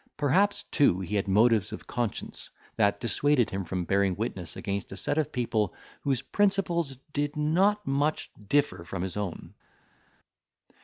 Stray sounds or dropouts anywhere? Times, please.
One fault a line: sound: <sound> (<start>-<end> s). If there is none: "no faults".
no faults